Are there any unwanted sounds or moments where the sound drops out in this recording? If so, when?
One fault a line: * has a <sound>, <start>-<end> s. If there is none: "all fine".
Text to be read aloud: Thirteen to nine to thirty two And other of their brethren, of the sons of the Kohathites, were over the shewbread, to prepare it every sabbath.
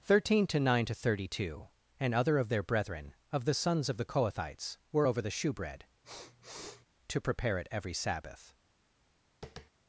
* has a sniff, 6.0-6.9 s
* has a tap, 9.4-9.7 s